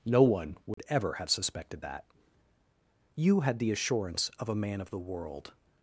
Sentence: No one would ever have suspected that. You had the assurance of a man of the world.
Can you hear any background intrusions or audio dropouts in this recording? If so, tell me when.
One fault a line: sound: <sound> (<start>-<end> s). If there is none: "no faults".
sound: dropout (0.7-0.8 s)